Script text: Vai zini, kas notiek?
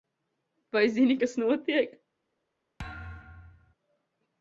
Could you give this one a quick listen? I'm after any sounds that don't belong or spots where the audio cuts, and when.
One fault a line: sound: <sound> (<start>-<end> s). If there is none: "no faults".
sound: thud (2.8-3.7 s)